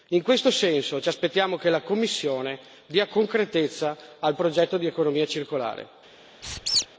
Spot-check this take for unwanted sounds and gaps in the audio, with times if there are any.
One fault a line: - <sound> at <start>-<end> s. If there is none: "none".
- squeak at 6.4-6.9 s